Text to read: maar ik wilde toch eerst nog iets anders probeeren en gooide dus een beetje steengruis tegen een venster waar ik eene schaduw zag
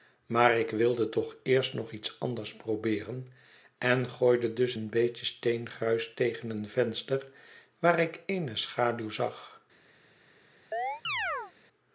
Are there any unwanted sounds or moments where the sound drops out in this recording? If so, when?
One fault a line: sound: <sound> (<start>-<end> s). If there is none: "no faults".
sound: chirp (10.7-11.5 s)